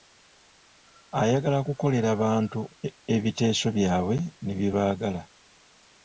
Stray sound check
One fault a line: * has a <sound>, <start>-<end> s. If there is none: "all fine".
all fine